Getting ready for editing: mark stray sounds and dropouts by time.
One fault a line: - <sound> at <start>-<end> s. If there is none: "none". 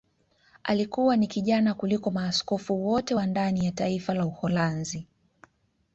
none